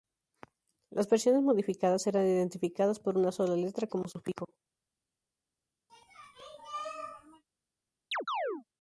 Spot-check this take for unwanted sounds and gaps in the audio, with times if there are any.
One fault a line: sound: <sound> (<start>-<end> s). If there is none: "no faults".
sound: sneeze (5.9-7.4 s)
sound: chirp (8.1-8.6 s)